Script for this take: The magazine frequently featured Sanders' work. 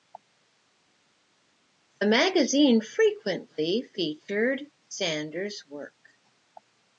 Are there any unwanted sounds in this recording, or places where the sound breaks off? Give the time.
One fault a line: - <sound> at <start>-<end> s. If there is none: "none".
none